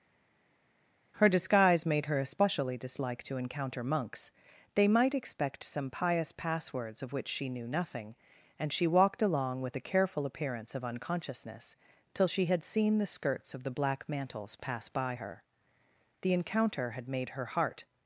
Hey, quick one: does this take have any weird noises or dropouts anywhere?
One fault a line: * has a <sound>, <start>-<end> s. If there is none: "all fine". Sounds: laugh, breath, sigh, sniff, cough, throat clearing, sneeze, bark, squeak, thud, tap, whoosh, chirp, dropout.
all fine